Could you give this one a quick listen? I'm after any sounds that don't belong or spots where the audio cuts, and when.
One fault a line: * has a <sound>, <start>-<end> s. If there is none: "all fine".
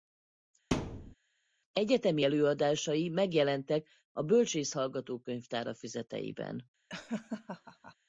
* has a thud, 0.7-1.1 s
* has a laugh, 6.9-8.0 s